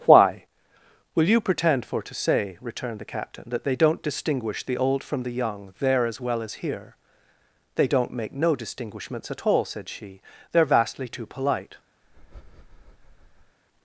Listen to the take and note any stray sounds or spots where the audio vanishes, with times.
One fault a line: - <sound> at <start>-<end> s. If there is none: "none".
- breath at 12.0-13.6 s